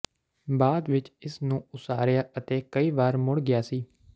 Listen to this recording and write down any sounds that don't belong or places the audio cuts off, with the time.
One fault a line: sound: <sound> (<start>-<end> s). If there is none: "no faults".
no faults